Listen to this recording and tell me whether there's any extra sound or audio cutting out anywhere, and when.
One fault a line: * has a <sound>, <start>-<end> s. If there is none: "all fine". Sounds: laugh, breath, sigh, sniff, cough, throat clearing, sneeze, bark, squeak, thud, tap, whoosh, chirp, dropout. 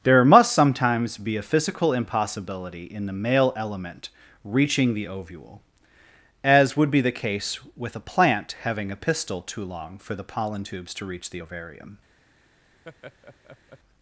* has a laugh, 12.8-13.8 s